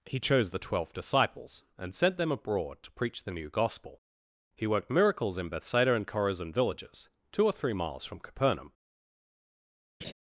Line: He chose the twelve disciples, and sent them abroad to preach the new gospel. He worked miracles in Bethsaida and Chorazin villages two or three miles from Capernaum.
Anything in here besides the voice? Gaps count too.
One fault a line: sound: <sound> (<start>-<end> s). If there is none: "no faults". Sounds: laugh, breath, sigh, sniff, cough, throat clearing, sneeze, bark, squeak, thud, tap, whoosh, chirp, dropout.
sound: laugh (10.0-10.1 s)